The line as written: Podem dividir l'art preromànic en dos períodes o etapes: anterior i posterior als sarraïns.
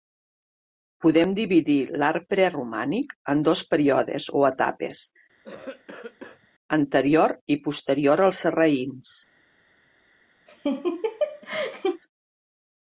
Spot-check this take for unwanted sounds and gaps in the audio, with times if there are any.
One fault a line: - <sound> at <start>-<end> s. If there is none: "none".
- cough at 5.4-6.5 s
- laugh at 10.5-12.0 s